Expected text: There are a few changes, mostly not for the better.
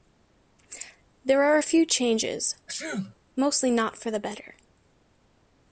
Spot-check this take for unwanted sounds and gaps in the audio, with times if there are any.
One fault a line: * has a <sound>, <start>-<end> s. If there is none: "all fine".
* has a sneeze, 2.7-3.2 s